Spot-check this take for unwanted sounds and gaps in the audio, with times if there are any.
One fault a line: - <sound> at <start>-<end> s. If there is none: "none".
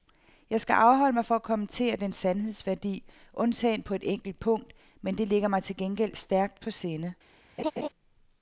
- laugh at 7.6-7.9 s